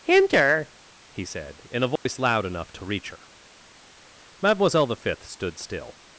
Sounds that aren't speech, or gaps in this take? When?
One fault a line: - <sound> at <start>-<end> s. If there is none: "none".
- dropout at 2.0-2.1 s